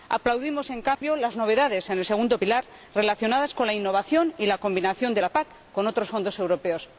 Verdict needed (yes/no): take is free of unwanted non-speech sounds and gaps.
no